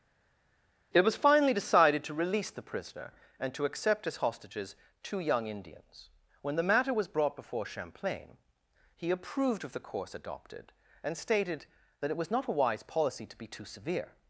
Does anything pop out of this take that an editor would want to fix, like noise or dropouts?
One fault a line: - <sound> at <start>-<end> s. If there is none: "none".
none